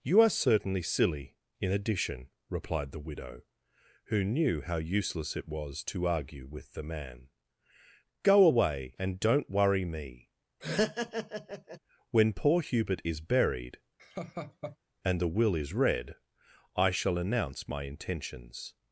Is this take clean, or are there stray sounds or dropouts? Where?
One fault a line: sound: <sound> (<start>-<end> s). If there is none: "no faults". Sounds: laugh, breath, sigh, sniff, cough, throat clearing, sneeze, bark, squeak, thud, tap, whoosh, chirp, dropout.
sound: laugh (10.6-11.8 s)
sound: laugh (14.0-14.8 s)